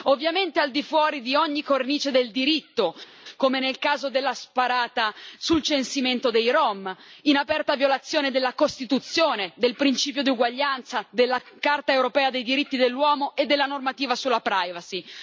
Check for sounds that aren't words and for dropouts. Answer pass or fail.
pass